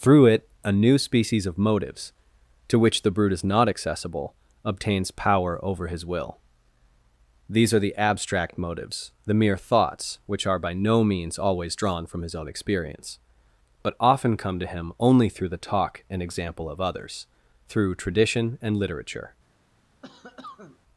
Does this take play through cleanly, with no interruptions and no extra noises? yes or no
no